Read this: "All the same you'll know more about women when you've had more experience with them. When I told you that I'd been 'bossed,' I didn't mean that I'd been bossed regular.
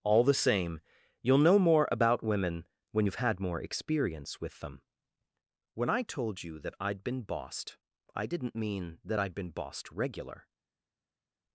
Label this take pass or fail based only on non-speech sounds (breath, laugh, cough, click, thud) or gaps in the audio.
pass